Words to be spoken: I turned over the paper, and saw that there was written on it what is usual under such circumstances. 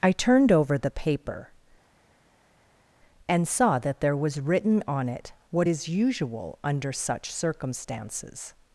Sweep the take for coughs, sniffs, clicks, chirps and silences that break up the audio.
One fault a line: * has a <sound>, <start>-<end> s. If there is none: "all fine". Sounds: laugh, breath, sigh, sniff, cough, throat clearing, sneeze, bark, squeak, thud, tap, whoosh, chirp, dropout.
all fine